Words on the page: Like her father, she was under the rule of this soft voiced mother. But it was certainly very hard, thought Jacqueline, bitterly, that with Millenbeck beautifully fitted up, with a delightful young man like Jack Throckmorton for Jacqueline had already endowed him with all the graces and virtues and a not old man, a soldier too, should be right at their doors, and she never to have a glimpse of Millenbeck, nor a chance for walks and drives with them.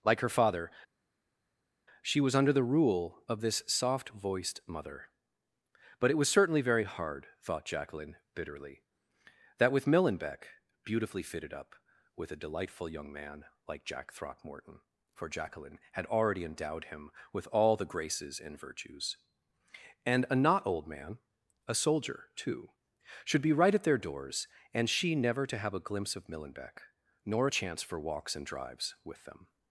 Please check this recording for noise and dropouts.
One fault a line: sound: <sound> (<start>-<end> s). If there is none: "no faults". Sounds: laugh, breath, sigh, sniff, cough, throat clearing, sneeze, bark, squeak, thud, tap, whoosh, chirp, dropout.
no faults